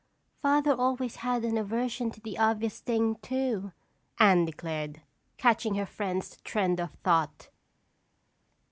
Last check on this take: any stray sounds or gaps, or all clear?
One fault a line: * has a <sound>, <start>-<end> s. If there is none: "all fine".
all fine